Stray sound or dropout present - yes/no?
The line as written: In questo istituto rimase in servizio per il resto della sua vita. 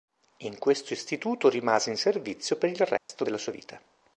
yes